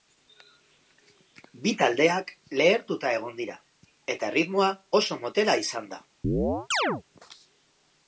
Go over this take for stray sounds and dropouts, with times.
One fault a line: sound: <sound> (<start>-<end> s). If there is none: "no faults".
sound: chirp (6.2-7.0 s)